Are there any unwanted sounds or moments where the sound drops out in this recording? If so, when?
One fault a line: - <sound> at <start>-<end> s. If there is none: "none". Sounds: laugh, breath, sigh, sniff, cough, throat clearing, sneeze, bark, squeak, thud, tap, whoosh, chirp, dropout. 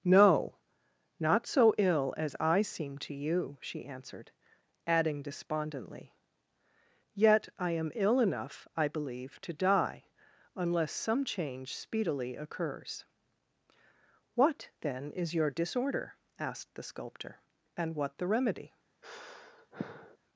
- sigh at 19.0-20.2 s